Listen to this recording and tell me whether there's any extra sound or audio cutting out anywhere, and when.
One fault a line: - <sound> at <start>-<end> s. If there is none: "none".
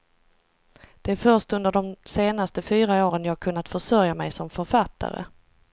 none